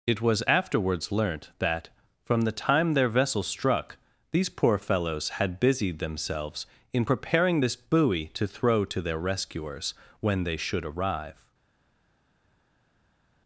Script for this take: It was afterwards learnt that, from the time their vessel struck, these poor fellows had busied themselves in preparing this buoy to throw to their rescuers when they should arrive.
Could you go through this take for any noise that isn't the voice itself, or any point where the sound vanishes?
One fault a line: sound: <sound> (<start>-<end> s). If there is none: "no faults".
no faults